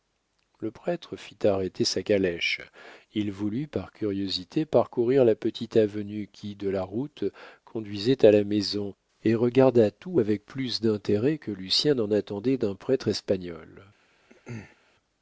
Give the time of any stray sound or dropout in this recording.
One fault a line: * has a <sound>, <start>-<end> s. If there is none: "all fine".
* has a throat clearing, 14.3-14.8 s